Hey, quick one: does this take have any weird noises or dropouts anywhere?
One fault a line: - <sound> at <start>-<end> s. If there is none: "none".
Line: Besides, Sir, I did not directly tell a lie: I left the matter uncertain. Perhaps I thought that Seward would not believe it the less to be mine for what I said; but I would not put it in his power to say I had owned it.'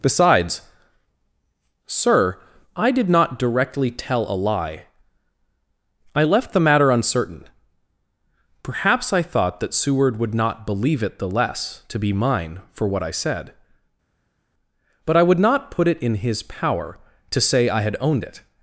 none